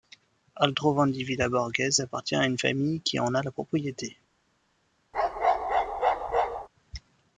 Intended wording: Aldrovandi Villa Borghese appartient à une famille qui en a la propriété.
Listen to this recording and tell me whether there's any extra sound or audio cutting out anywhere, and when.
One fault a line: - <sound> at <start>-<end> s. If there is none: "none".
- bark at 5.1-6.7 s